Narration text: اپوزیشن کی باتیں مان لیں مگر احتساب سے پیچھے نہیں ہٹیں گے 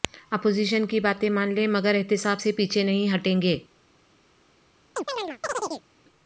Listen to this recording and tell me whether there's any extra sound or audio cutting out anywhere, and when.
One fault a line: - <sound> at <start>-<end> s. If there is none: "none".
- chirp at 5.0-5.8 s